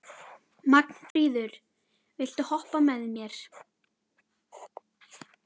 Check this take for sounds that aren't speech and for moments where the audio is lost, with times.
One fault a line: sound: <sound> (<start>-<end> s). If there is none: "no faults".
sound: dropout (1.1-1.2 s)